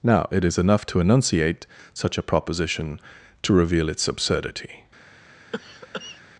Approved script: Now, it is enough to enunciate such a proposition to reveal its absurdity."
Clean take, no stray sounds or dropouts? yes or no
no